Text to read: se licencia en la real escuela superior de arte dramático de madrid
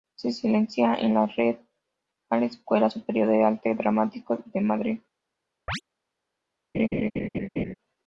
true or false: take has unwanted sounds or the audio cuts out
true